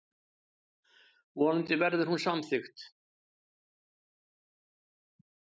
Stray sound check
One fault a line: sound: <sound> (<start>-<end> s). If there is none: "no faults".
no faults